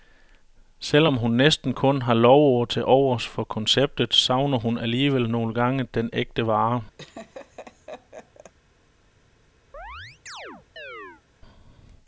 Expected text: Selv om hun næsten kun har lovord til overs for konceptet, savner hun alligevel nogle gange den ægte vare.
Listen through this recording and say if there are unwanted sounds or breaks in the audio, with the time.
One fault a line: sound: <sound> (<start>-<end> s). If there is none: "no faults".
sound: laugh (7.0-8.5 s)
sound: chirp (9.7-11.2 s)